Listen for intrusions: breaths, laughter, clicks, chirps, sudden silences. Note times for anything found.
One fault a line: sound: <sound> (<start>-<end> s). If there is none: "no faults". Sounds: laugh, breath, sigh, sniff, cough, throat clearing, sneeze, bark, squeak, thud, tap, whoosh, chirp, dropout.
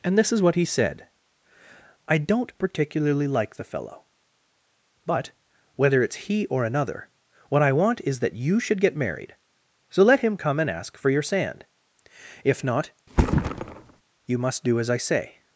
sound: thud (13.1-14.0 s)